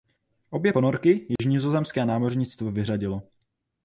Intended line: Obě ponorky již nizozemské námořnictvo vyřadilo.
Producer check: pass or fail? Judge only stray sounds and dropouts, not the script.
fail